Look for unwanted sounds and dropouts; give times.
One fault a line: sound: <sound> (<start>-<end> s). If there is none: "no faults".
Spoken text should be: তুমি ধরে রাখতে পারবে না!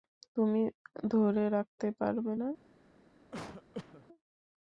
sound: cough (3.3-4.1 s)